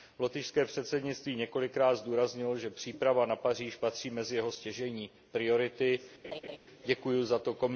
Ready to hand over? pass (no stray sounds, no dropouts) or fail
fail